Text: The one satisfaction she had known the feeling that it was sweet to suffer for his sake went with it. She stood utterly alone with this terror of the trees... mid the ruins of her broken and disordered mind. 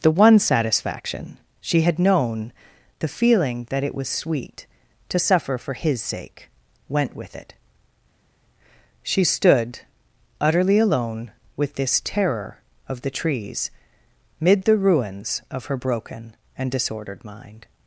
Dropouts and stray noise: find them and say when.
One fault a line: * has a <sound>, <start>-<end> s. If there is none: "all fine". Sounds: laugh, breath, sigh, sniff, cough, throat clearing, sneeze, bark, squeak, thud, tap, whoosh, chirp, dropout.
all fine